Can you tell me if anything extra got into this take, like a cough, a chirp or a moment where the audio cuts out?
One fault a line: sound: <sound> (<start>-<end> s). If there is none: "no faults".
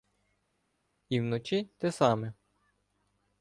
no faults